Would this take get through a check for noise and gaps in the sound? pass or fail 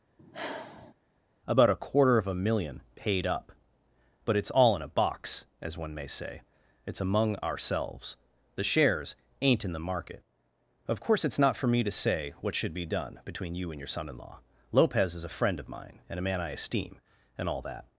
fail